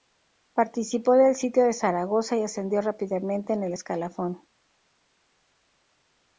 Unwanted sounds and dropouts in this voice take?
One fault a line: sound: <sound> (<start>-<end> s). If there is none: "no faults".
no faults